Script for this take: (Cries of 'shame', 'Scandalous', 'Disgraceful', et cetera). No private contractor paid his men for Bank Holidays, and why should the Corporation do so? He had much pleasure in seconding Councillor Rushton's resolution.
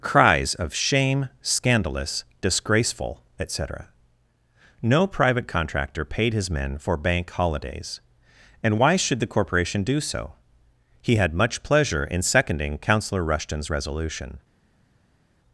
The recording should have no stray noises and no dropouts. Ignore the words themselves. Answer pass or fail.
pass